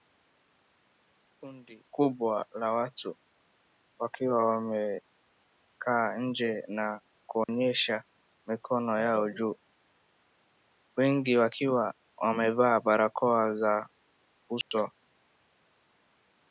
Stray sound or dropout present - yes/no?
yes